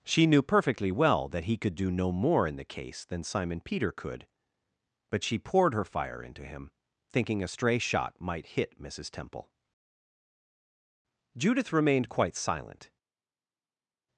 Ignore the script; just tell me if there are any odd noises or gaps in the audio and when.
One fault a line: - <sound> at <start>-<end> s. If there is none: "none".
none